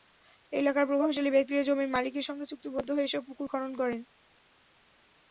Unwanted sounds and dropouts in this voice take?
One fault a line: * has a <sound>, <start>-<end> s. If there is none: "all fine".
all fine